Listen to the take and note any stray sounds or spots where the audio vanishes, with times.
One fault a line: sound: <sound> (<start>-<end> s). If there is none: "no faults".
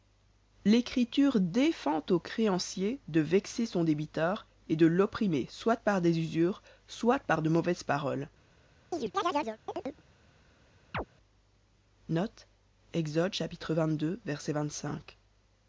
sound: chirp (8.9-10.0 s)
sound: chirp (10.9-11.1 s)